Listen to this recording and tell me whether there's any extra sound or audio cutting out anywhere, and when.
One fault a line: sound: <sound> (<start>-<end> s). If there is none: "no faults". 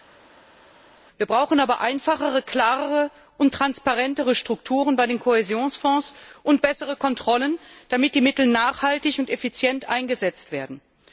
no faults